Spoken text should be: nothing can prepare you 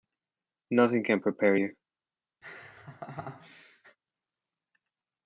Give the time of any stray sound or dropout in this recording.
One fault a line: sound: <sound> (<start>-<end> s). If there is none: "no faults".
sound: laugh (2.4-4.0 s)